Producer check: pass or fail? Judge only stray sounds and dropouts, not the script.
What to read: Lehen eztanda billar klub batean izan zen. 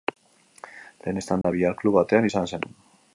fail